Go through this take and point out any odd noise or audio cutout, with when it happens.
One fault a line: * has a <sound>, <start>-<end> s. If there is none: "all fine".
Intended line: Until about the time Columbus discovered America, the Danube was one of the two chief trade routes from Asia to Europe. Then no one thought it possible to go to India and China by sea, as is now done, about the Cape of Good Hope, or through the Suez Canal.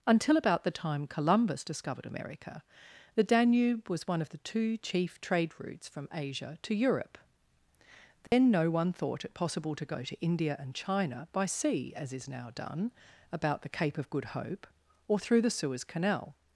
* has a dropout, 8.3-8.3 s